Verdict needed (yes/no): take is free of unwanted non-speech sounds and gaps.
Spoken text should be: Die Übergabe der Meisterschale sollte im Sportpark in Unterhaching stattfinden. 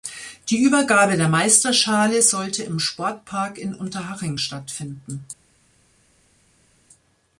yes